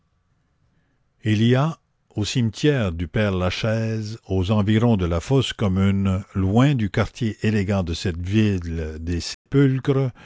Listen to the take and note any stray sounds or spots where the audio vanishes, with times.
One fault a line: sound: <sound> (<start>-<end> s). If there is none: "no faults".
sound: dropout (9.3-9.5 s)